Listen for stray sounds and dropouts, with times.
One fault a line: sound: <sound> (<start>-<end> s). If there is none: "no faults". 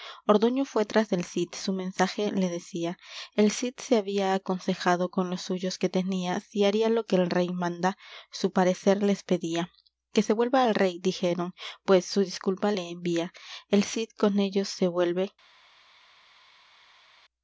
no faults